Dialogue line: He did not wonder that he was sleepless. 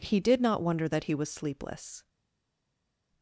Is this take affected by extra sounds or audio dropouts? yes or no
no